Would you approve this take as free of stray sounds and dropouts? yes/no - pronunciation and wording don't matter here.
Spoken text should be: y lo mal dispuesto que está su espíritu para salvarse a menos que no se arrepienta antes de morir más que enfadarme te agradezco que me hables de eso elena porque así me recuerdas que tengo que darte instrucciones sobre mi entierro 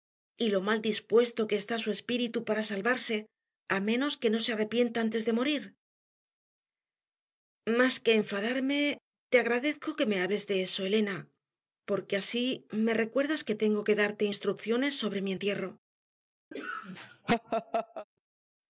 no